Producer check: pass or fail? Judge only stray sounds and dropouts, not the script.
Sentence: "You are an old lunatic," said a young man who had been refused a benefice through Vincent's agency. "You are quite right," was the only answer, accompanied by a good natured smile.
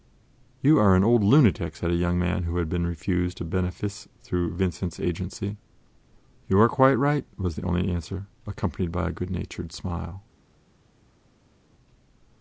pass